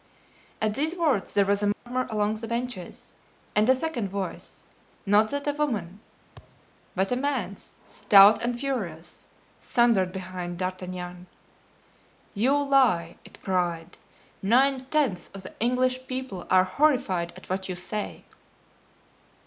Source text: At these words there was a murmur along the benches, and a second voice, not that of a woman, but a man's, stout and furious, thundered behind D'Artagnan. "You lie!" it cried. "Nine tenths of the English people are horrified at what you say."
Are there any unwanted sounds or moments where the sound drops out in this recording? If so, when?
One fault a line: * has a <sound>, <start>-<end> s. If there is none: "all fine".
* has a dropout, 1.7-1.9 s
* has a thud, 6.4-6.7 s